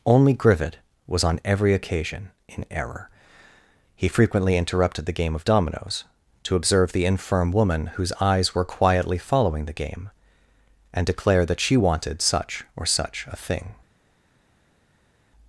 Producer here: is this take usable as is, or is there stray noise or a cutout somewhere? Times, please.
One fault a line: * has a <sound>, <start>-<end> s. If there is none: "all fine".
all fine